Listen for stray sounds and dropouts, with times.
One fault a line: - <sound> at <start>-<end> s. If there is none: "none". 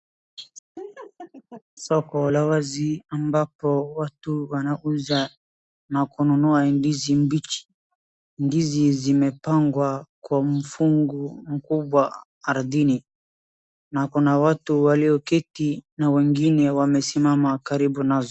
- laugh at 0.8-1.6 s